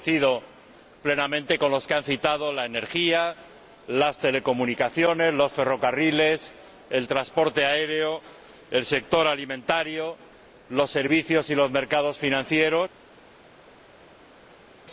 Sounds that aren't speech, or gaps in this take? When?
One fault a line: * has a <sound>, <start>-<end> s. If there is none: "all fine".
all fine